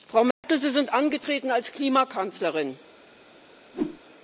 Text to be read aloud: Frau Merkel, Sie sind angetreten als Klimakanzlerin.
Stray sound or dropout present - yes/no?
yes